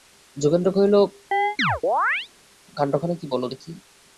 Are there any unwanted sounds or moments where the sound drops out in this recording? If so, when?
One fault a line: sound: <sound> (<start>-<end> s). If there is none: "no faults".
sound: chirp (1.3-2.3 s)